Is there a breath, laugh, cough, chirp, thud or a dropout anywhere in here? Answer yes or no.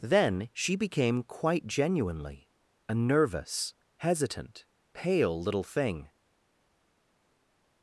no